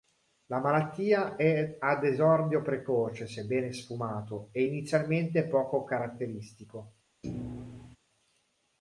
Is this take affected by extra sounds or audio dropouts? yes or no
yes